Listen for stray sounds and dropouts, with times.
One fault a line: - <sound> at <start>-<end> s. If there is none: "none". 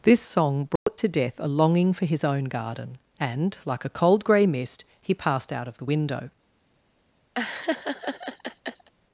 - dropout at 0.8-0.9 s
- laugh at 7.4-8.9 s